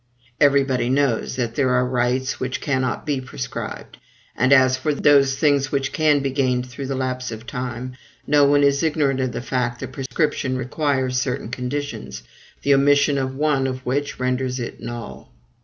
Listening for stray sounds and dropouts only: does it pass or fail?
fail